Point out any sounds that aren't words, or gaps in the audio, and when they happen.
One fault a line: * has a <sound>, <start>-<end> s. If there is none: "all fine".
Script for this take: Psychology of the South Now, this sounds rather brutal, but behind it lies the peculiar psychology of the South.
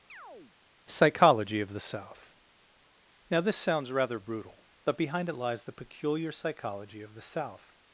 * has a chirp, 0.1-0.6 s